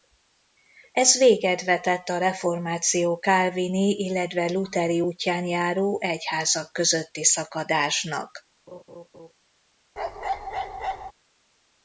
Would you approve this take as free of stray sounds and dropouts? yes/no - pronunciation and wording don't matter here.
no